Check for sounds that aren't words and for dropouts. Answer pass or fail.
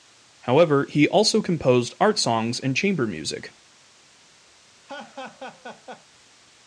fail